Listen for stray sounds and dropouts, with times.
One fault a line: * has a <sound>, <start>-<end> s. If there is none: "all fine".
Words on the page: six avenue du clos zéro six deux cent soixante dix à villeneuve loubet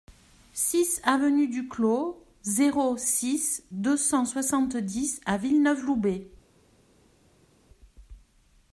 all fine